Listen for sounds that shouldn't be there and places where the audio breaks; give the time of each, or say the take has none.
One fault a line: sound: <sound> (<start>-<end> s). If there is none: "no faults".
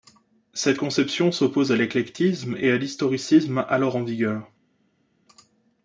no faults